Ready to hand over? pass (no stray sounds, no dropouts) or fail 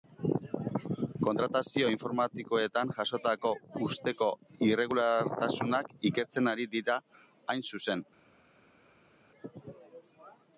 pass